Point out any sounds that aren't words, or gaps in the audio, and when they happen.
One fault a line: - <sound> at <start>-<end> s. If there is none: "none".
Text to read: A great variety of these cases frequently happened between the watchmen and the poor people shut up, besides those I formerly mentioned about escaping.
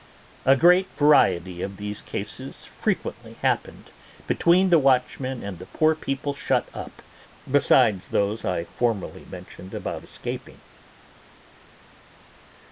none